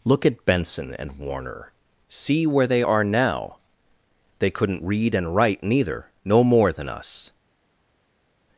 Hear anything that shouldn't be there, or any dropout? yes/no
no